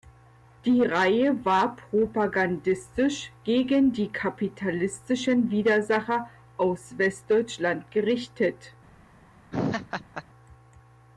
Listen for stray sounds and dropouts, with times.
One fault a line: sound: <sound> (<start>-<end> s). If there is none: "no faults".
sound: laugh (9.5-10.2 s)